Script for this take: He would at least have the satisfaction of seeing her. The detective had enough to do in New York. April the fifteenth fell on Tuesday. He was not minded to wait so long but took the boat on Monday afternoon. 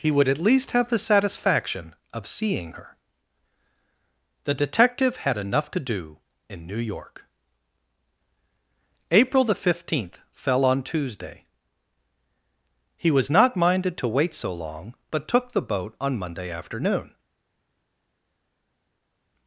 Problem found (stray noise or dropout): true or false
false